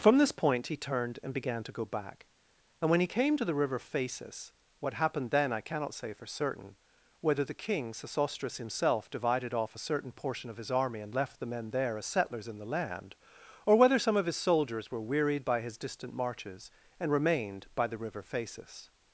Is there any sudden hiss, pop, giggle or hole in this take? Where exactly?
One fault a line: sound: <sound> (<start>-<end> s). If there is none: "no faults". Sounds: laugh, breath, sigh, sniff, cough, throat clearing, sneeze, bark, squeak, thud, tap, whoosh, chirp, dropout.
no faults